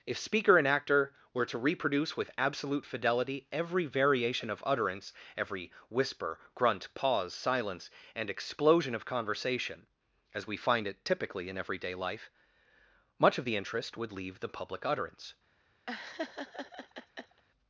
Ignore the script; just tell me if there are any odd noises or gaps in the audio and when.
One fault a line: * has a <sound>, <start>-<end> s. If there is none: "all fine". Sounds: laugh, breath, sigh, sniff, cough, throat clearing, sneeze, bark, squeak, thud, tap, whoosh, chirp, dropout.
* has a laugh, 15.9-17.4 s